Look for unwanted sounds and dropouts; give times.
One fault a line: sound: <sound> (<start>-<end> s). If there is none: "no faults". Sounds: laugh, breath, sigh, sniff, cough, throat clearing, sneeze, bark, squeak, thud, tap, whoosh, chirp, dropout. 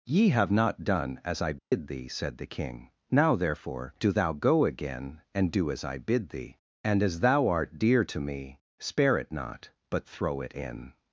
sound: dropout (1.6-1.7 s)